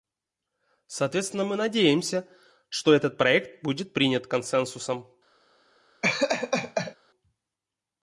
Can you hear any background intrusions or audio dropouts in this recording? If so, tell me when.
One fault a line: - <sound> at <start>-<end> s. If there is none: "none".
- laugh at 6.0-7.0 s